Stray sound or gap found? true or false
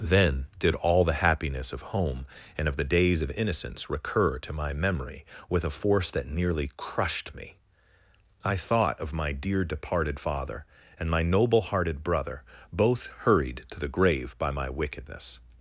false